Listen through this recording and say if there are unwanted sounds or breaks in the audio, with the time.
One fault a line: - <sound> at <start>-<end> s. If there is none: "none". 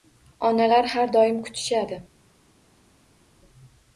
none